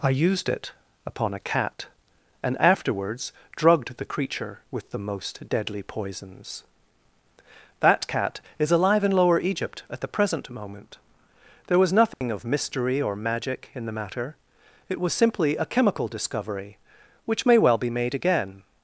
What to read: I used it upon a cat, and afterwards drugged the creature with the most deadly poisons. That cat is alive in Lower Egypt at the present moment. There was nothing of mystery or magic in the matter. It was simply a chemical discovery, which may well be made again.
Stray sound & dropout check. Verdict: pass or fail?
fail